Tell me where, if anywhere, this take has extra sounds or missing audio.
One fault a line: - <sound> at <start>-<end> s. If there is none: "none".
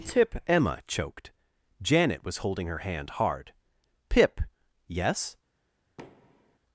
- thud at 6.0-6.6 s